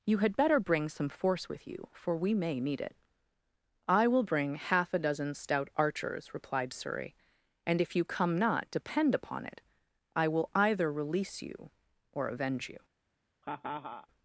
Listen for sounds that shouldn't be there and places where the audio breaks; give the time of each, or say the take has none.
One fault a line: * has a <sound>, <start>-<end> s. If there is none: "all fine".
* has a laugh, 13.4-14.1 s